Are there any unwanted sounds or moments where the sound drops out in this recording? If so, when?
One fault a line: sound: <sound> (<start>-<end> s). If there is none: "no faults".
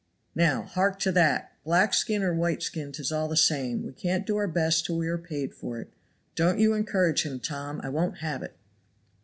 no faults